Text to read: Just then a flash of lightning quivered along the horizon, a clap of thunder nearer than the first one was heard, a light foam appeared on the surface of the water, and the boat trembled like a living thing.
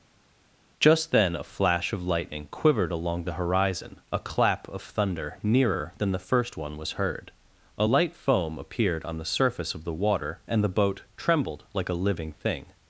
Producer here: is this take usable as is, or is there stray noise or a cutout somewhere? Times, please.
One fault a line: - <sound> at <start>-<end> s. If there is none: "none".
none